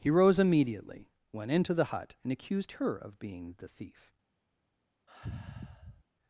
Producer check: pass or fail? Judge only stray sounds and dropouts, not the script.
fail